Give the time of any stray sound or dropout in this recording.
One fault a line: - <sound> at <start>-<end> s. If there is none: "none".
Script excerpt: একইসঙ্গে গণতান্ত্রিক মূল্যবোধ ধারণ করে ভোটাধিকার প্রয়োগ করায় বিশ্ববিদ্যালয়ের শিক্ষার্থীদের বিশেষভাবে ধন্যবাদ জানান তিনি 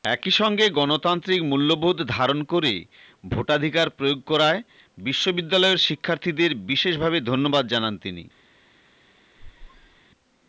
- squeak at 9.4-10.0 s